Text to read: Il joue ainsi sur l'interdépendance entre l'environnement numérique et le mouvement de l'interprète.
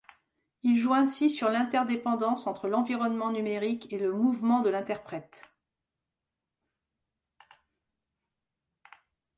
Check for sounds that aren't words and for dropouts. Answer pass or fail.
pass